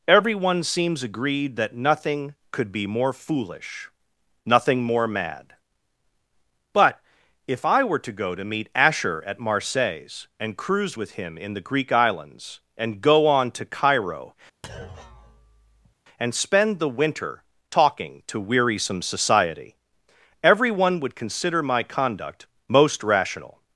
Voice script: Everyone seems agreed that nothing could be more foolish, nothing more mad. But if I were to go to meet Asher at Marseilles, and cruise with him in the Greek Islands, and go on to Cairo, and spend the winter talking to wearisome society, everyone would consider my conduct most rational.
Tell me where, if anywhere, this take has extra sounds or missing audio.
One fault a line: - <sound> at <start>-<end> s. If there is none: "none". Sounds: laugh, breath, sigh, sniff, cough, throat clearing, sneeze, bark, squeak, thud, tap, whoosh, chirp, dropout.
- thud at 14.6-15.9 s